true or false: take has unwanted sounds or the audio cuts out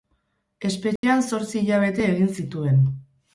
true